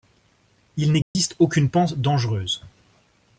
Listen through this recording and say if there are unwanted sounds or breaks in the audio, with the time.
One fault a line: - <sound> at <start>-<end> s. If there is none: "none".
- dropout at 1.0-1.2 s